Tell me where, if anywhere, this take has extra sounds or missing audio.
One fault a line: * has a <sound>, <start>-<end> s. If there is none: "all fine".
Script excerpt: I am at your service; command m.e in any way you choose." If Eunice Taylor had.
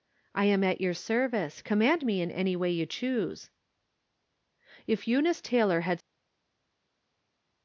all fine